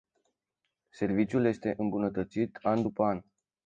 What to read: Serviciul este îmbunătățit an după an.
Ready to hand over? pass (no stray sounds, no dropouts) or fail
pass